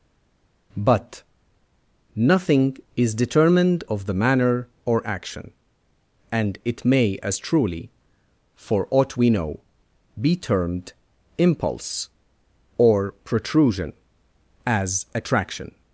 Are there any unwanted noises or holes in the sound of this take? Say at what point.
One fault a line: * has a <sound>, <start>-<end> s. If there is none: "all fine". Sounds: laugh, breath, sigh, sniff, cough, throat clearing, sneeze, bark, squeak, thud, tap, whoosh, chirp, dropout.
all fine